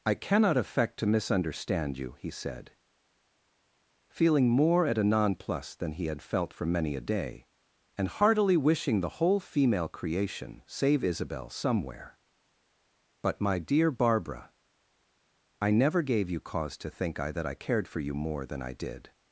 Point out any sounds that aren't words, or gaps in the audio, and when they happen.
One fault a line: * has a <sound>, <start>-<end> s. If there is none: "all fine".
all fine